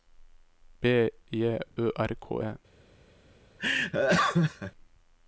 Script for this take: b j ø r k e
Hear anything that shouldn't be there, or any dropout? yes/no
yes